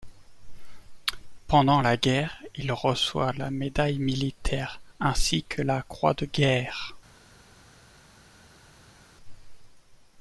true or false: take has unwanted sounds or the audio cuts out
false